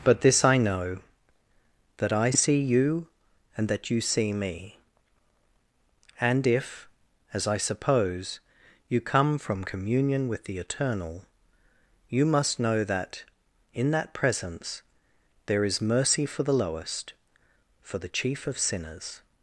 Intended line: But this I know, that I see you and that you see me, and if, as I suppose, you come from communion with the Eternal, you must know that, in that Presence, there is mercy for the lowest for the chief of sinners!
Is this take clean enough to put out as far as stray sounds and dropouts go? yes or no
yes